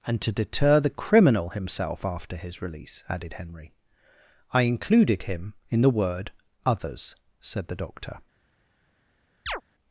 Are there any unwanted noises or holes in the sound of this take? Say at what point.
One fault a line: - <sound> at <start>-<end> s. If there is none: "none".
- chirp at 9.5-9.6 s